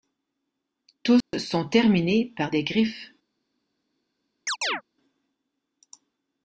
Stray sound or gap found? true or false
true